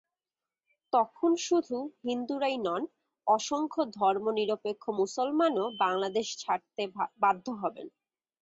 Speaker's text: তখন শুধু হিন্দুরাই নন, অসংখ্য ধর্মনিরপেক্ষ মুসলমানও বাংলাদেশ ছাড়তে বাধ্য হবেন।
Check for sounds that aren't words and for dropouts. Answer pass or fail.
pass